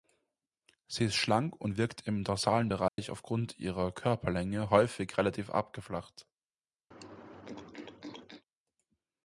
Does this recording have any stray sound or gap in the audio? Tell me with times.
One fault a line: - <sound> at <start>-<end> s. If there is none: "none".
- dropout at 2.9-3.0 s
- throat clearing at 6.9-8.4 s